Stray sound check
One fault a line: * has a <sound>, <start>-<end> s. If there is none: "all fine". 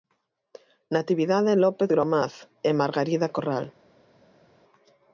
all fine